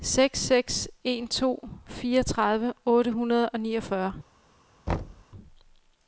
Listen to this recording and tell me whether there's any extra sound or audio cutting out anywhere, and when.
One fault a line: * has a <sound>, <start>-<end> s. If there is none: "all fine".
* has a thud, 4.9-5.2 s